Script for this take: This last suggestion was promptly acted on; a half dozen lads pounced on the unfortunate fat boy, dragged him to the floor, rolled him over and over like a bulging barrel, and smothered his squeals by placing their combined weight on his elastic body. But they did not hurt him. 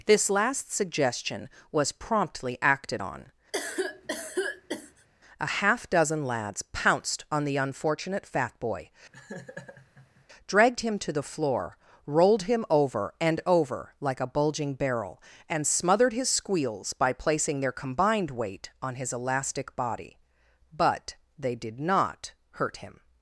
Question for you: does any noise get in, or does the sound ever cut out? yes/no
yes